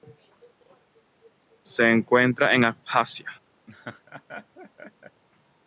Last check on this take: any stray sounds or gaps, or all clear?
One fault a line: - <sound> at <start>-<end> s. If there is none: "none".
- laugh at 3.7-5.2 s